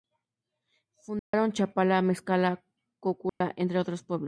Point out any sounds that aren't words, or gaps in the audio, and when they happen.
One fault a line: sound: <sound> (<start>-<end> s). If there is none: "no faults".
sound: dropout (1.2-1.3 s)
sound: dropout (3.3-3.4 s)